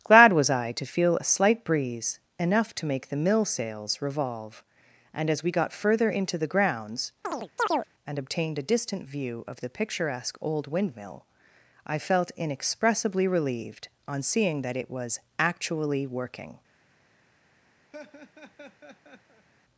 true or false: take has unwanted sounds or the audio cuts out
true